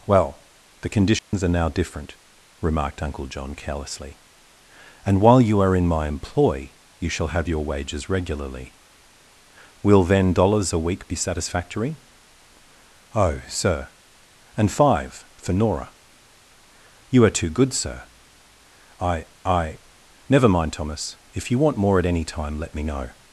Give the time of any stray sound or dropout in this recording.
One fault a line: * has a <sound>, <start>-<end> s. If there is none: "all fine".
* has a dropout, 1.2-1.3 s